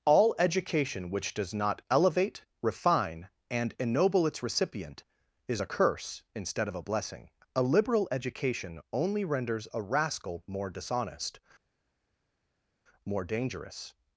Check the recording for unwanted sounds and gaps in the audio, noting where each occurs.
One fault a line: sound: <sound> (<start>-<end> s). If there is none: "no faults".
no faults